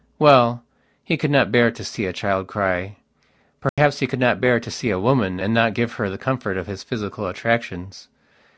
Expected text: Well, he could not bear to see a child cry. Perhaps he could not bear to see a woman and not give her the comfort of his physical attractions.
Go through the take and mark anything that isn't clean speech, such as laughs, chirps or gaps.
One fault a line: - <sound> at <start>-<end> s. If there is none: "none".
- dropout at 3.7-3.8 s